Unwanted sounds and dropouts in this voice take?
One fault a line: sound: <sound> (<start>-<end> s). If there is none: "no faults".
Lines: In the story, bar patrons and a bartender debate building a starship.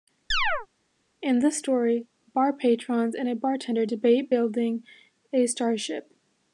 sound: chirp (0.3-0.7 s)